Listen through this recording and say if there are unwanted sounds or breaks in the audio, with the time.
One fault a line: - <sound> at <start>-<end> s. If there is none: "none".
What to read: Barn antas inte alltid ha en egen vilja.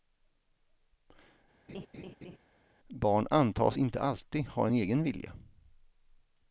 - laugh at 1.7-2.4 s